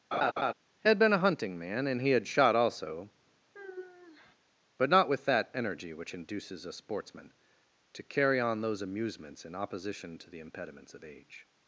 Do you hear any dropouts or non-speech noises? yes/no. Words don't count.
yes